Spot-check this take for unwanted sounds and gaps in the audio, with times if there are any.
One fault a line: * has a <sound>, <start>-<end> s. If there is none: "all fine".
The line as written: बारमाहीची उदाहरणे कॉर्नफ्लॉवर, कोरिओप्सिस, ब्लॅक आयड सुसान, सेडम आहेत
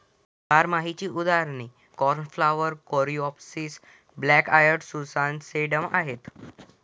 all fine